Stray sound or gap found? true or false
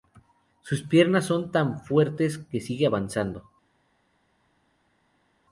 false